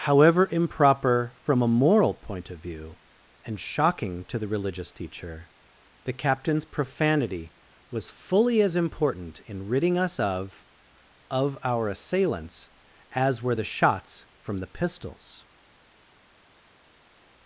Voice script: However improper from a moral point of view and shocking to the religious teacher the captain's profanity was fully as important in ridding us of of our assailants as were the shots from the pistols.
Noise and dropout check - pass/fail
pass